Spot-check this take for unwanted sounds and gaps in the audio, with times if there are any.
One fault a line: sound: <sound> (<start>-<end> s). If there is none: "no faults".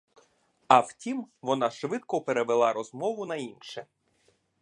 no faults